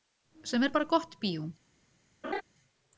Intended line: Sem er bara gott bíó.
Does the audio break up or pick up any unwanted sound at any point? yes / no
yes